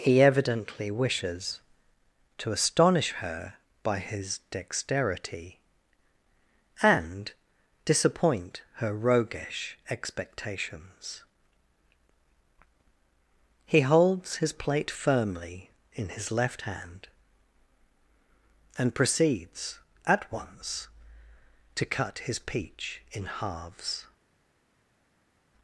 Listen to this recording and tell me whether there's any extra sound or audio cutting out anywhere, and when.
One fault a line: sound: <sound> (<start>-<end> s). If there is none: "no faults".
no faults